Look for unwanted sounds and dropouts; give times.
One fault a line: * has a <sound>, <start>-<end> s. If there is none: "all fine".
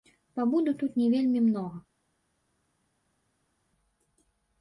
all fine